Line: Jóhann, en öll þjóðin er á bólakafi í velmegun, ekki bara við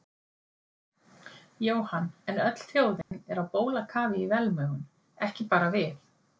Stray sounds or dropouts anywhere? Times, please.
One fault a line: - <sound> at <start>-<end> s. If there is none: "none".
- dropout at 3.0-3.1 s